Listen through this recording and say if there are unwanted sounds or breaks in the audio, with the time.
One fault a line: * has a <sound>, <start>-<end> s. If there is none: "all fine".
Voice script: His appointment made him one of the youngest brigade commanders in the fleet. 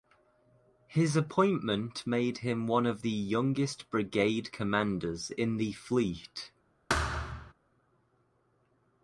* has a thud, 6.9-7.5 s